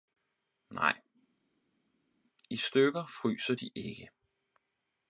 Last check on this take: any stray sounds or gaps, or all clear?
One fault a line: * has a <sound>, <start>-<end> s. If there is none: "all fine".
all fine